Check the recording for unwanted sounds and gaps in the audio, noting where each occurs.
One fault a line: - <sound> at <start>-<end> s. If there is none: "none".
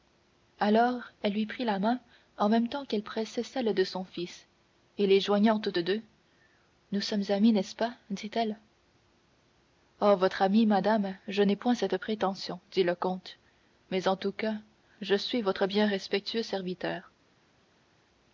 none